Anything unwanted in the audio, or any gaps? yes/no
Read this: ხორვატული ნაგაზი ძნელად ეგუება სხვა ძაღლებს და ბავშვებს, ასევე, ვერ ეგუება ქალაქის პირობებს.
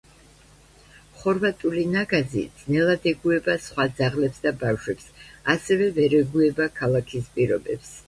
no